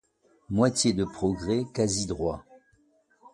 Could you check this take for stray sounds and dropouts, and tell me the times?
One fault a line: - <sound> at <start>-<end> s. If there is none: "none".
none